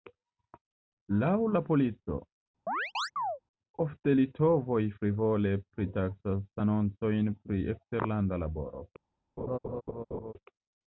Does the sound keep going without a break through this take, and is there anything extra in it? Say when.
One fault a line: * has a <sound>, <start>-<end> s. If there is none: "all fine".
* has a chirp, 2.7-3.4 s
* has a laugh, 9.4-10.3 s